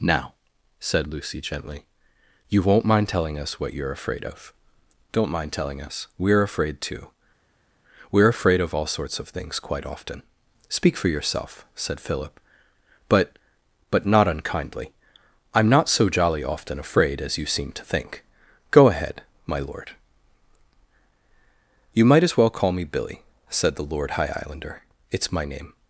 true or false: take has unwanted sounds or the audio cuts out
false